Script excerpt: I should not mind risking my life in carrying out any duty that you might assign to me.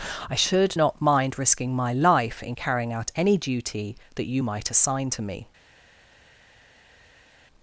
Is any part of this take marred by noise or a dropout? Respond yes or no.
no